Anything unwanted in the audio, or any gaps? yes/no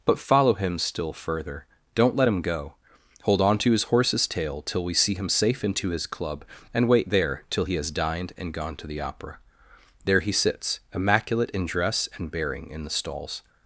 no